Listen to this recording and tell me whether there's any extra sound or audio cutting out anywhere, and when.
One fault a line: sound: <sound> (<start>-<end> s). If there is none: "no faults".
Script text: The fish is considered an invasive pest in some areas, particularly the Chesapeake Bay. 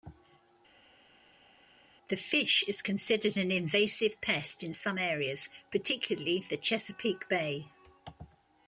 no faults